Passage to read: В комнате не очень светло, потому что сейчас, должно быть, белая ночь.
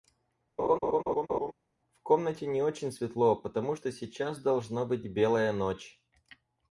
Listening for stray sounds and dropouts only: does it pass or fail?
fail